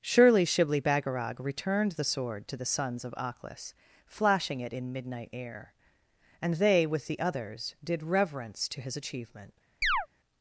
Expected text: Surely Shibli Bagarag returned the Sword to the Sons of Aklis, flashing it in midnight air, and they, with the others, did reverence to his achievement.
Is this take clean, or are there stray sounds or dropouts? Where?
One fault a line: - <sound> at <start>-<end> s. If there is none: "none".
- chirp at 9.8-10.1 s